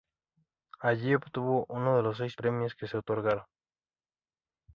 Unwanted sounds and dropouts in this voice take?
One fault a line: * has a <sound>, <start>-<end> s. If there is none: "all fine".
all fine